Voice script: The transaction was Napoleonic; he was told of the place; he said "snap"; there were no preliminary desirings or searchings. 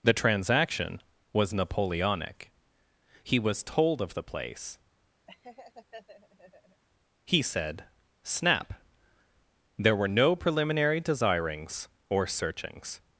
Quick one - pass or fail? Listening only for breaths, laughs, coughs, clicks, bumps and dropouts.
fail